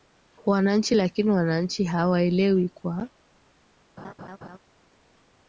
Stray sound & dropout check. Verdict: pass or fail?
fail